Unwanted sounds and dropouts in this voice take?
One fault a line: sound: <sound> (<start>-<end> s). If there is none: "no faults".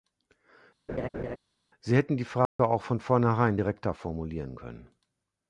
sound: laugh (0.9-1.4 s)
sound: dropout (2.5-2.6 s)